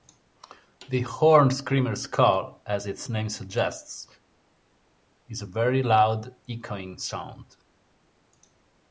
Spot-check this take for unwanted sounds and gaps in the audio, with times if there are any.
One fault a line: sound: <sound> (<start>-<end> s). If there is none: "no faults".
no faults